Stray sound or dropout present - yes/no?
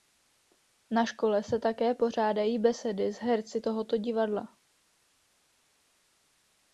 no